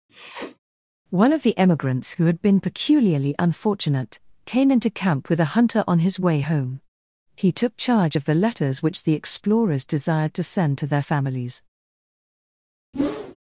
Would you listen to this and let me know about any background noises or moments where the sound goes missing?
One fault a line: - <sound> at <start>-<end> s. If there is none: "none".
- sniff at 0.1-0.6 s
- whoosh at 12.9-13.4 s